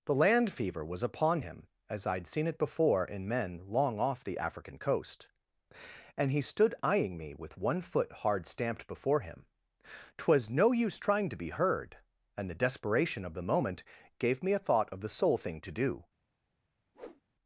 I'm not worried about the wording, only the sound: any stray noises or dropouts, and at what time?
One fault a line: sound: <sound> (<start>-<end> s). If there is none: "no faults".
sound: whoosh (16.9-17.2 s)